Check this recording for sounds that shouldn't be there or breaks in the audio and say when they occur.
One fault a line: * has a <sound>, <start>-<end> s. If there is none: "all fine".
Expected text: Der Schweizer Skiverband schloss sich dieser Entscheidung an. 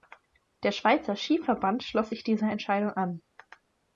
all fine